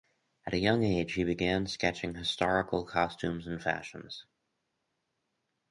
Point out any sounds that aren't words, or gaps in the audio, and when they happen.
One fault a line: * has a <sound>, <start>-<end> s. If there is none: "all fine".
all fine